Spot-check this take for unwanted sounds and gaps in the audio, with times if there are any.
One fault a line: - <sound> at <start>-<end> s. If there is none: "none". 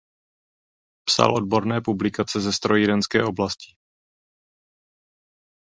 none